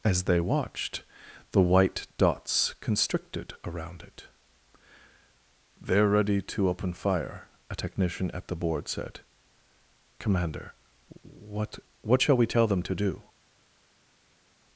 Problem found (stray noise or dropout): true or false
false